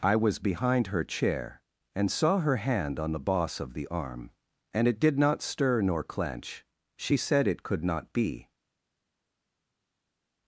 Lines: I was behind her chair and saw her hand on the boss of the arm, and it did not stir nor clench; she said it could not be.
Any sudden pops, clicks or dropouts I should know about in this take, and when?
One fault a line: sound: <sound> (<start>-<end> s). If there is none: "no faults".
no faults